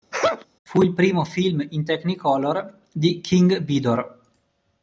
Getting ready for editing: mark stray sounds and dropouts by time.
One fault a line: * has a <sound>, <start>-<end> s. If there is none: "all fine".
* has a sneeze, 0.1-0.5 s